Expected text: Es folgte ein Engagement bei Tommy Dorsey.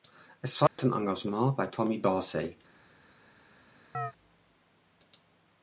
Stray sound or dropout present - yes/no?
yes